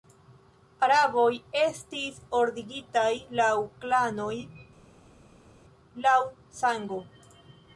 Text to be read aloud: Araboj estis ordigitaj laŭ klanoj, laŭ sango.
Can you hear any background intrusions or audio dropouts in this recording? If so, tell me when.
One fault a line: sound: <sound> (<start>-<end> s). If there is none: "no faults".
no faults